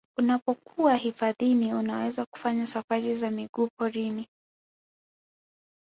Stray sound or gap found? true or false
false